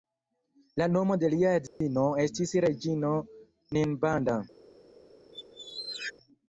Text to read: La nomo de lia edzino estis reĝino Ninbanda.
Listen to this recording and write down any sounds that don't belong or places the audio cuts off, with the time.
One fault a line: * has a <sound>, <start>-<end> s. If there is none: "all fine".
* has a dropout, 1.7-1.8 s
* has a squeak, 5.3-6.1 s